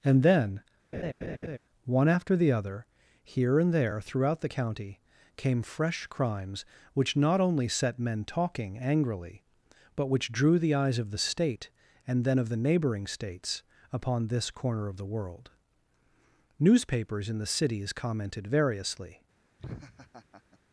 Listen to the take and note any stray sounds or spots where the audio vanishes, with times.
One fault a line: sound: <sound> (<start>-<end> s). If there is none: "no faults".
sound: laugh (0.9-1.6 s)
sound: laugh (19.6-20.6 s)